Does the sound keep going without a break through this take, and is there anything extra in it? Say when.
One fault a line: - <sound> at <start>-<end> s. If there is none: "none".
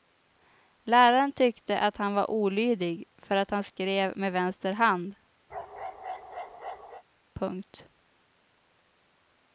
- bark at 5.5-7.0 s